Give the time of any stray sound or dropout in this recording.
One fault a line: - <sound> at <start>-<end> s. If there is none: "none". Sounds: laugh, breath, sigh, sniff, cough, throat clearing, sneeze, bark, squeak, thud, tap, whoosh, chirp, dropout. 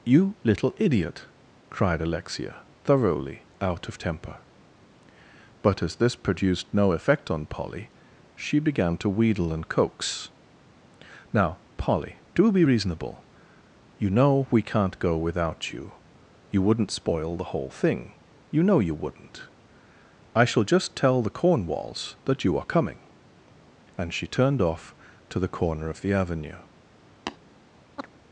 - tap at 27.3-27.4 s
- chirp at 28.0-28.1 s